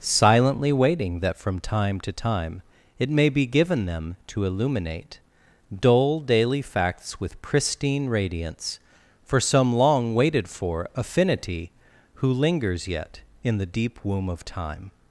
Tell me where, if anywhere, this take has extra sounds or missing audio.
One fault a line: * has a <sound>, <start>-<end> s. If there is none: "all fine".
all fine